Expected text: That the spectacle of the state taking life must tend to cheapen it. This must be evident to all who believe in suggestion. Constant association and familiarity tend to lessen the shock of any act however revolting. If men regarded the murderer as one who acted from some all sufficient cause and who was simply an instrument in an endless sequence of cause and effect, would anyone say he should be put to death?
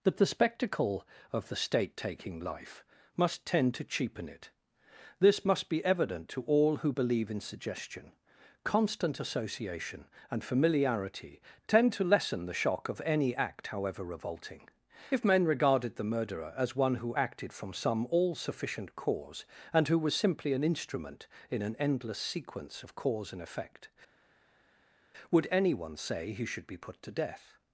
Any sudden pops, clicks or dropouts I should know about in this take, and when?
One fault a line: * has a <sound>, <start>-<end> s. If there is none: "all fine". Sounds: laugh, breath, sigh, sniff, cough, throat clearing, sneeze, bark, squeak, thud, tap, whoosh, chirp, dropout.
all fine